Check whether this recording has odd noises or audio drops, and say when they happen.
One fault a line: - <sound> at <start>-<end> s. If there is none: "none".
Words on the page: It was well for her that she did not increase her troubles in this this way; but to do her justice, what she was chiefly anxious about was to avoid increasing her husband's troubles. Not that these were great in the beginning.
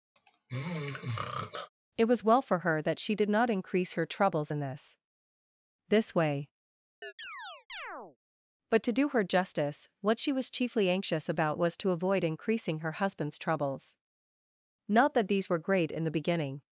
- throat clearing at 0.2-1.7 s
- chirp at 7.0-8.2 s